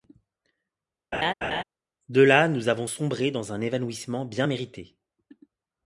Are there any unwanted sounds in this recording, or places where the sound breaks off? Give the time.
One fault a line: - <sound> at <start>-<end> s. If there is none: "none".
- laugh at 1.1-1.6 s